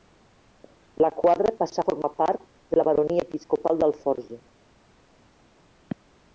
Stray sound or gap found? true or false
false